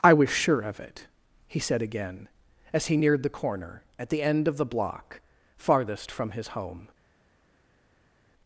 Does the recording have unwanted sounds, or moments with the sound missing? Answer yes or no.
no